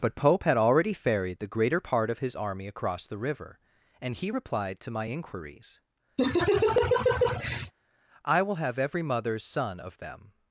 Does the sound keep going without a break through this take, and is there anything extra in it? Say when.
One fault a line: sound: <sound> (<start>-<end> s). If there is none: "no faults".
sound: laugh (6.2-7.7 s)